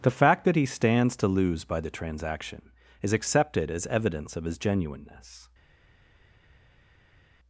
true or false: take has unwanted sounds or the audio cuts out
false